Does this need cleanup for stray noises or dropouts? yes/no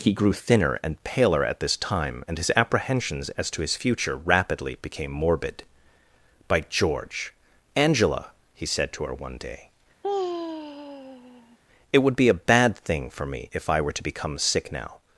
yes